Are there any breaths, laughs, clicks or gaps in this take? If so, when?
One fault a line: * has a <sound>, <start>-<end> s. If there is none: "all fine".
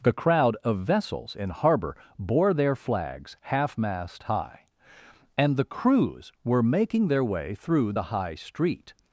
all fine